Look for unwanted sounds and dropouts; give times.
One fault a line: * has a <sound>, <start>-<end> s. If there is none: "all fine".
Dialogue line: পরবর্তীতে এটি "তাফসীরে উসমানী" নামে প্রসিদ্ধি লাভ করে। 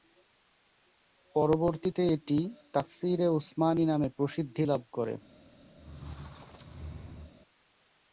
* has a squeak, 5.8-7.3 s